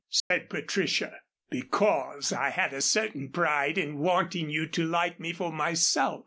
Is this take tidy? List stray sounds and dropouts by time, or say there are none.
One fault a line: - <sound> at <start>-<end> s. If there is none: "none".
- dropout at 0.2-0.3 s